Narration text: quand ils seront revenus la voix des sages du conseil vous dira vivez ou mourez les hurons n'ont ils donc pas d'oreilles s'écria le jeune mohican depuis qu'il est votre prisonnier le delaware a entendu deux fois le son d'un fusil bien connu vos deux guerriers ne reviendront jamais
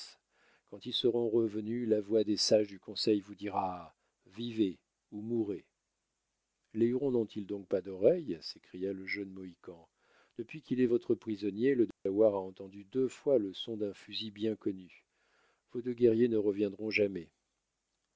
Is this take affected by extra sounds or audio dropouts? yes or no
yes